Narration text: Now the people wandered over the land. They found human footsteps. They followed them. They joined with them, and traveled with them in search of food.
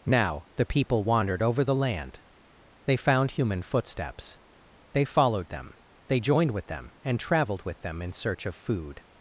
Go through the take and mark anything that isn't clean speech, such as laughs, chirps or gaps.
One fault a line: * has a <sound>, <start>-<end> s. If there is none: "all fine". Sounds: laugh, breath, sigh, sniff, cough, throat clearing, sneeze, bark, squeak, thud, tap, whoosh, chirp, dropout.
all fine